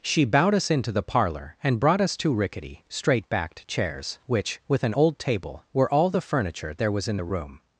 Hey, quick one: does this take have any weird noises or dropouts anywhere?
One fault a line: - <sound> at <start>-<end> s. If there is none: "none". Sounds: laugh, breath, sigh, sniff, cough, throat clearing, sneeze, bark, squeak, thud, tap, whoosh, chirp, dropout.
none